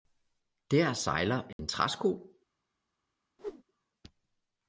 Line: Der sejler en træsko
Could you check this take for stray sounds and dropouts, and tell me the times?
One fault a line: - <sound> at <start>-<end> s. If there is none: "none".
- dropout at 1.5-1.6 s
- whoosh at 3.4-3.6 s